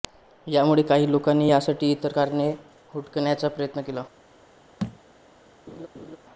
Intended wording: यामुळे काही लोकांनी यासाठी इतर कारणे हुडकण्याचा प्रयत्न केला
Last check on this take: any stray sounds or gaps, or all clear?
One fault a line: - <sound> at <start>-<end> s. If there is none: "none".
- thud at 4.8-5.0 s
- laugh at 5.7-6.2 s